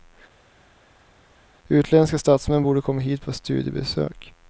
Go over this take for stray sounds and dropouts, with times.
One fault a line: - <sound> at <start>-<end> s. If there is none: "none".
none